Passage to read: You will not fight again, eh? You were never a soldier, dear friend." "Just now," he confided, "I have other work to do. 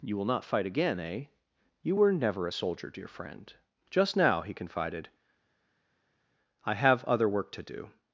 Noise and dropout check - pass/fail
pass